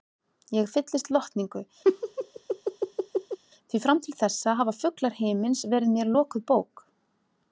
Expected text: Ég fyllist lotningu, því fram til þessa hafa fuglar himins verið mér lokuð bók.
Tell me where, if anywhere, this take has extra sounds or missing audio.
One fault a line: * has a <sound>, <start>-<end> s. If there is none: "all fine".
* has a laugh, 1.8-3.4 s